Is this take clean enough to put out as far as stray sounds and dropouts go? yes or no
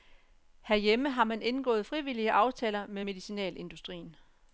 yes